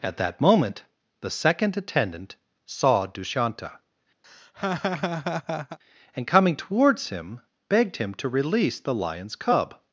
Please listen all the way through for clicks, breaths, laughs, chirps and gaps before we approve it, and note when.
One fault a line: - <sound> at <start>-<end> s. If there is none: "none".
- laugh at 4.2-5.8 s